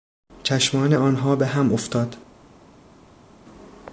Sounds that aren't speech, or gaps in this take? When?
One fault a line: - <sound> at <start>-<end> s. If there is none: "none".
none